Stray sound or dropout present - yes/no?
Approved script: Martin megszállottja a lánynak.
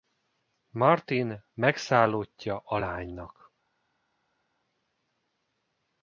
no